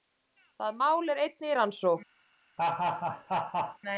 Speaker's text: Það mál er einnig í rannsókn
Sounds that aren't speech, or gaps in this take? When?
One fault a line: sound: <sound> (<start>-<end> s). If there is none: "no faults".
sound: laugh (2.6-3.8 s)